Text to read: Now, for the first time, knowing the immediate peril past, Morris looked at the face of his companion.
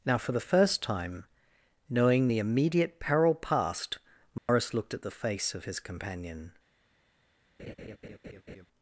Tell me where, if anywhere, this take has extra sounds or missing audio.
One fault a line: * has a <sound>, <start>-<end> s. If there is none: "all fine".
* has a dropout, 4.4-4.5 s
* has a laugh, 7.6-8.7 s